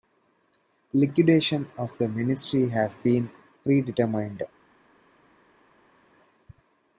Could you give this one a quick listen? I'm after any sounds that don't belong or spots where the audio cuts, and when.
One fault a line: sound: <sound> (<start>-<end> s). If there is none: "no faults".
no faults